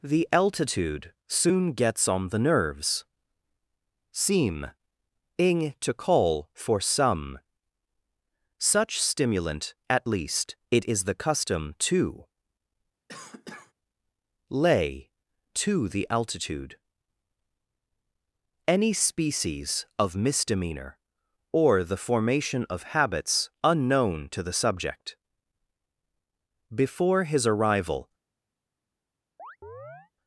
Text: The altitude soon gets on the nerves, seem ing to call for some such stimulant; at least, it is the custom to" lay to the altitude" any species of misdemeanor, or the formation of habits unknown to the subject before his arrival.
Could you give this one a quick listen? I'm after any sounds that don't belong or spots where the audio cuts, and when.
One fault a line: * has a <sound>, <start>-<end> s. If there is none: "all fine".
* has a cough, 13.1-13.7 s
* has a chirp, 29.4-30.1 s